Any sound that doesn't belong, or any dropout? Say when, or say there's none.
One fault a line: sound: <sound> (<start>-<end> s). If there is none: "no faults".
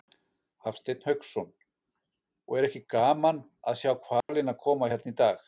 sound: dropout (4.2-4.3 s)